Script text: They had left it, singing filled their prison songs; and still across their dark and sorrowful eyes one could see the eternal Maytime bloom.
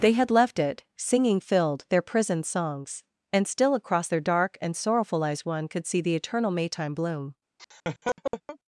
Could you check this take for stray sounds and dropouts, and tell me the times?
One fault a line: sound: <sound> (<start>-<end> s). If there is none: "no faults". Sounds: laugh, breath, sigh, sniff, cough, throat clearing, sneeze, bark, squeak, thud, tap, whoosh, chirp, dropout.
sound: laugh (7.6-8.6 s)